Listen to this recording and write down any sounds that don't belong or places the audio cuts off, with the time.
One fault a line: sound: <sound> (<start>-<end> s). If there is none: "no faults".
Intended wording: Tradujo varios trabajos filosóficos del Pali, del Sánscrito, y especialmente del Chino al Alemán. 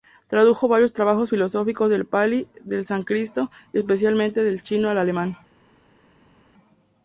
no faults